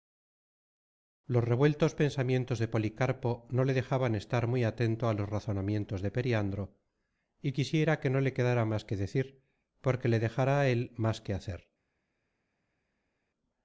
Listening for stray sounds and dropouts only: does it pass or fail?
pass